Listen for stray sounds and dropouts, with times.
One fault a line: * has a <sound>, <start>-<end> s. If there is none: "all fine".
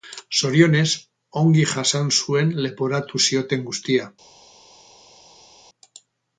all fine